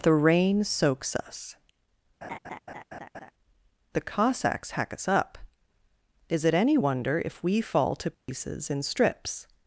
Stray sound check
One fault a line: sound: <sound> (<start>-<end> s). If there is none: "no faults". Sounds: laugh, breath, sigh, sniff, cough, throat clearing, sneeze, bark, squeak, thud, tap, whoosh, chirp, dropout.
sound: laugh (2.2-3.3 s)
sound: dropout (8.1-8.3 s)